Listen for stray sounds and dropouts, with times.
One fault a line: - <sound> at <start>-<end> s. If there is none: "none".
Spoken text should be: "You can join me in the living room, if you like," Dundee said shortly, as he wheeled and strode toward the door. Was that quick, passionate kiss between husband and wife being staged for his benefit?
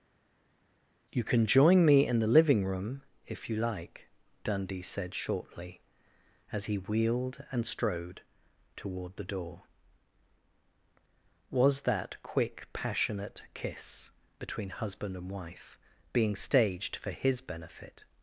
none